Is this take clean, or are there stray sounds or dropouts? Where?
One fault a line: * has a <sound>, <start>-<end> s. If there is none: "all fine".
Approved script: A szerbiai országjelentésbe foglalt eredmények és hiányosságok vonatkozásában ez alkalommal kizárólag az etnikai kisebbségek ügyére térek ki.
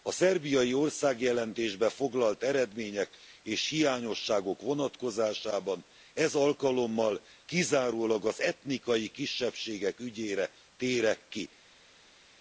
all fine